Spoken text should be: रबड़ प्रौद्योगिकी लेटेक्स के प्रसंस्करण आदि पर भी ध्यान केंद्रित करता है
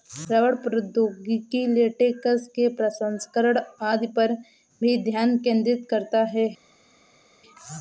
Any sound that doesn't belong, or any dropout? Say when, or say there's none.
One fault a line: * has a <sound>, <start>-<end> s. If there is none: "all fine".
all fine